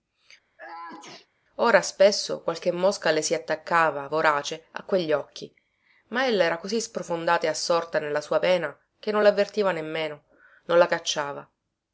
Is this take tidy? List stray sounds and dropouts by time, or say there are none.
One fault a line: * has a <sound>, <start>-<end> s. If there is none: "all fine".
* has a sneeze, 0.6-1.3 s